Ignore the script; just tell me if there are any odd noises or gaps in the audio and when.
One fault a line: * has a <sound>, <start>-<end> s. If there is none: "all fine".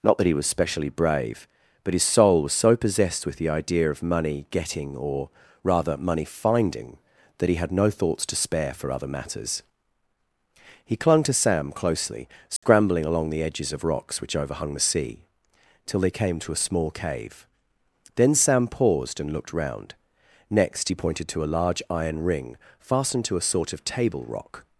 * has a dropout, 12.6-12.6 s